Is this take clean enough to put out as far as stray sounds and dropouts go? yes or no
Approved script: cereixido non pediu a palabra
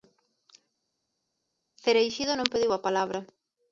yes